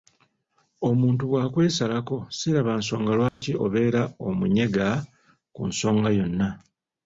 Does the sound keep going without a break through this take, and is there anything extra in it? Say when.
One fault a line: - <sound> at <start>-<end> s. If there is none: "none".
- dropout at 3.3-3.4 s